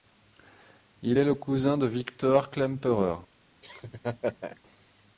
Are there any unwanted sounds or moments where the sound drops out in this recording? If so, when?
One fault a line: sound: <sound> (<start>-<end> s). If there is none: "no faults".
sound: laugh (3.6-4.6 s)